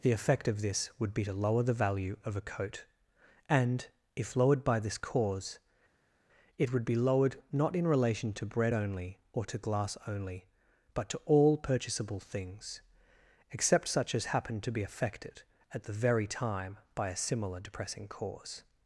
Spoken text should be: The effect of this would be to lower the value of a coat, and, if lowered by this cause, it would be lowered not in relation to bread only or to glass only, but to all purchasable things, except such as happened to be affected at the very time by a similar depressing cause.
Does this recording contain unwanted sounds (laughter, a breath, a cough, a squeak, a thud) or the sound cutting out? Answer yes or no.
no